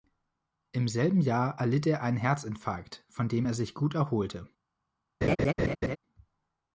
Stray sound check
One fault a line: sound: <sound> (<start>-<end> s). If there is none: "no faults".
sound: laugh (5.2-6.0 s)